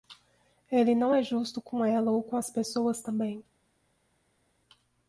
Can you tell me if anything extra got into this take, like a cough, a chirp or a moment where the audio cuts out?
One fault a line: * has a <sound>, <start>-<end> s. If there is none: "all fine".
all fine